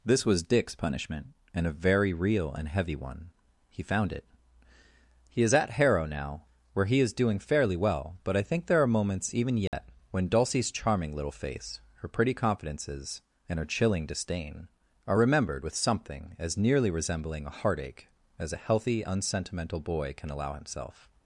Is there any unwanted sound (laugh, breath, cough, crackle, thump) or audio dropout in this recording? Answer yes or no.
yes